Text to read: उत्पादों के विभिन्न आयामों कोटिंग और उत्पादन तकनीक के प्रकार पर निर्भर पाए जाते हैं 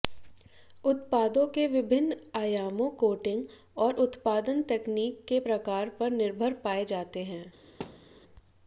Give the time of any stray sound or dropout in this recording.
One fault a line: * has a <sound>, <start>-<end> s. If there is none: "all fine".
* has a thud, 7.8-8.1 s